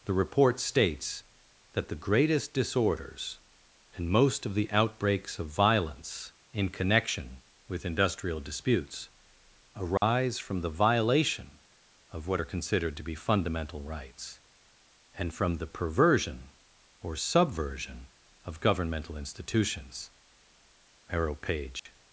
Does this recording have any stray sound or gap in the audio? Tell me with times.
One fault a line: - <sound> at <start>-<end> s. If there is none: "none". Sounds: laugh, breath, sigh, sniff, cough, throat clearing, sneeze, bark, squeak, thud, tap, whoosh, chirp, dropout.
- dropout at 10.0-10.0 s
- dropout at 21.8-21.9 s